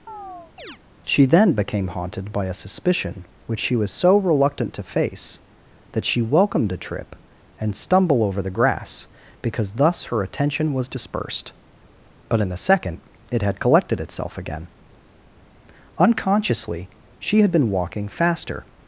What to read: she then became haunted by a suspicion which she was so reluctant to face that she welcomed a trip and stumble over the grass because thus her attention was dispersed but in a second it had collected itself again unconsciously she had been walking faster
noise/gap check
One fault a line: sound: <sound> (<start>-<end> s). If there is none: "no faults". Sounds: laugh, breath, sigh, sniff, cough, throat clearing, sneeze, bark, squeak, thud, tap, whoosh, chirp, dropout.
sound: chirp (0.1-0.8 s)